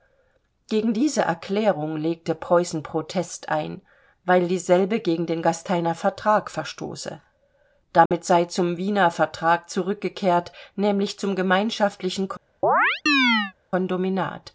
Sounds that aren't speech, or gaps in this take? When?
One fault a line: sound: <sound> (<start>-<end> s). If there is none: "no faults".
sound: dropout (8.1-8.1 s)
sound: chirp (12.6-13.5 s)